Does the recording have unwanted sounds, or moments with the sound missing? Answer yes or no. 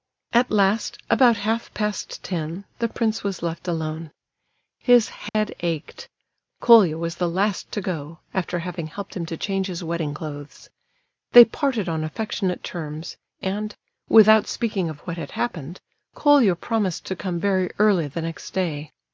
yes